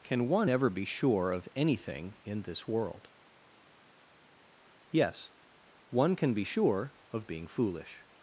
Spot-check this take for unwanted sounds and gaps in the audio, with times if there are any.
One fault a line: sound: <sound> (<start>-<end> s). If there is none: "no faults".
no faults